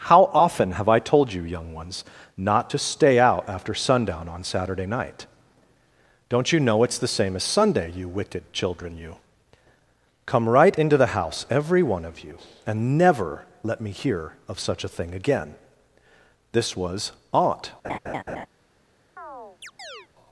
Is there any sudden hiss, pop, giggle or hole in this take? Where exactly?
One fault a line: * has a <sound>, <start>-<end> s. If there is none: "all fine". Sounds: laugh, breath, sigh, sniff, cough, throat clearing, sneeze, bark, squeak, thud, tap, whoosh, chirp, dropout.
* has a laugh, 17.8-18.5 s
* has a chirp, 19.2-20.1 s